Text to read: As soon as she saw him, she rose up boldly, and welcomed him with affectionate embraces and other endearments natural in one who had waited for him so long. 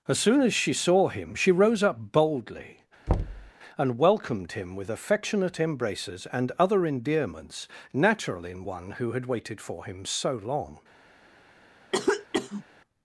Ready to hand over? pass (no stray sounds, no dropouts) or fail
fail